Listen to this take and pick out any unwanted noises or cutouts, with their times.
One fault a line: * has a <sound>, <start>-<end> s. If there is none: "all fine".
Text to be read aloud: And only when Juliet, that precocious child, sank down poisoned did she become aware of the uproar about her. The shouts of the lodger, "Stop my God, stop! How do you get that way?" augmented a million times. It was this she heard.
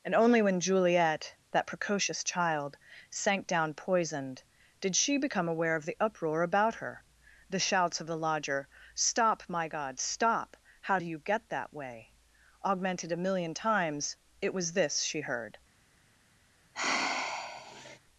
* has a sigh, 16.7-18.0 s